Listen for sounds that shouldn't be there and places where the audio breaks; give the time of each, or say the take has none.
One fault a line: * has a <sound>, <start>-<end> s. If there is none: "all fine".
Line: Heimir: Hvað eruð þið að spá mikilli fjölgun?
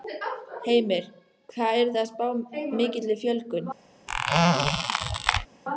* has a squeak, 4.1-5.5 s